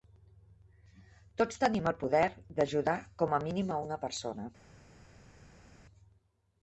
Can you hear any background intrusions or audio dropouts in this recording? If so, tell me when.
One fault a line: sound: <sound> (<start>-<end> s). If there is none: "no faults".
no faults